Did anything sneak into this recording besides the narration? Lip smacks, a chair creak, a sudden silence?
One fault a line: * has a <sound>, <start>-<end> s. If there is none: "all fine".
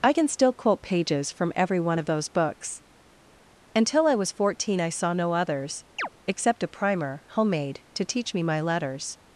* has a chirp, 6.0-6.1 s